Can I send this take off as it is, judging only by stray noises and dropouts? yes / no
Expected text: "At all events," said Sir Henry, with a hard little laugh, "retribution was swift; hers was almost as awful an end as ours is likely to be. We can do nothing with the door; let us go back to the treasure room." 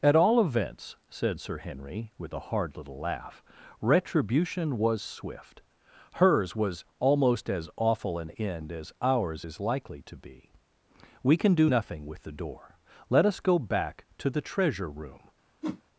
no